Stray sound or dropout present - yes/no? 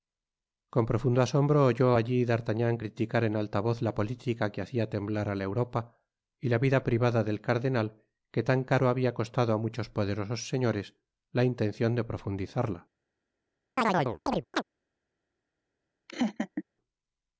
yes